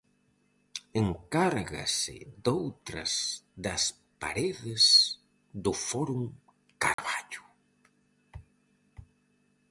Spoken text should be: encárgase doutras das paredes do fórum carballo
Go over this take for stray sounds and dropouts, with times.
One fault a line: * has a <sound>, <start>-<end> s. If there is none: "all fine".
* has a dropout, 6.9-7.0 s